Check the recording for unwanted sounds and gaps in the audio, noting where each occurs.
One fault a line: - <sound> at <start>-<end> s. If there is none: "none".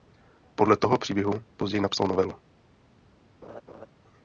- laugh at 3.4-3.9 s